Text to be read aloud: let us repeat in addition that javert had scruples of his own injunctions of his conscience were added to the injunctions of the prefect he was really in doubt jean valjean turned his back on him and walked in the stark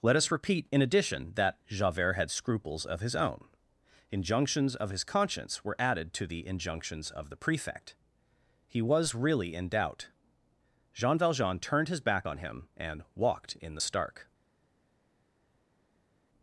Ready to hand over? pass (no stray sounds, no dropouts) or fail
pass